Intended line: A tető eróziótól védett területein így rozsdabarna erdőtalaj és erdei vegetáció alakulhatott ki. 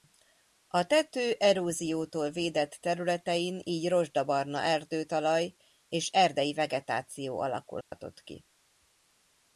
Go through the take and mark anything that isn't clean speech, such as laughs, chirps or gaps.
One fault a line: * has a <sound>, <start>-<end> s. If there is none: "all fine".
* has a dropout, 7.8-7.9 s